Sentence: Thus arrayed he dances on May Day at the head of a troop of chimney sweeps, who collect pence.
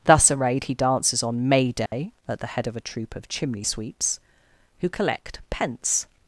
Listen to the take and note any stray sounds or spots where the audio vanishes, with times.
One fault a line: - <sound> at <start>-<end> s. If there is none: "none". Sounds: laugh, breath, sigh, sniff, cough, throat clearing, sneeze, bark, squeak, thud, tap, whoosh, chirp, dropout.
- dropout at 1.9-1.9 s